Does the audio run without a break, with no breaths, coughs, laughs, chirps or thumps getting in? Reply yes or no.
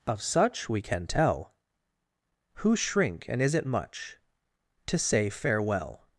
yes